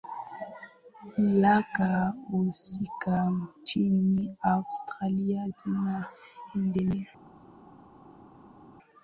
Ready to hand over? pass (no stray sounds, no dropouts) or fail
pass